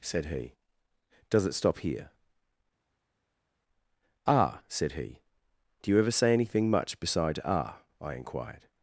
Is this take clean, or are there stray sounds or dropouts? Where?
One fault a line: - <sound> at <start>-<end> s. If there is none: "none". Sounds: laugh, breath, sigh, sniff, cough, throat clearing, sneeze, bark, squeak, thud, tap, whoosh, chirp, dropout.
none